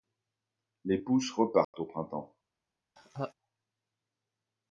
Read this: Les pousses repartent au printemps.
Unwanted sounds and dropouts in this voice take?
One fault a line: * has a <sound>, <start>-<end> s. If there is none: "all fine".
* has a dropout, 1.6-1.7 s
* has a laugh, 3.0-3.3 s